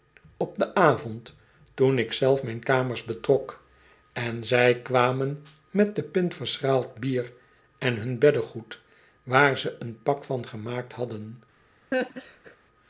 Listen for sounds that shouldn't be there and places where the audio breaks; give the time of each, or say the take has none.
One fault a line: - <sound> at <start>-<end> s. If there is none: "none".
- laugh at 11.9-12.6 s